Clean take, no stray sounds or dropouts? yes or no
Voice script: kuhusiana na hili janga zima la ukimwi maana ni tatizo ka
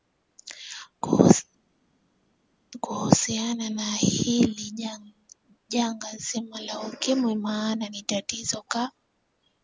yes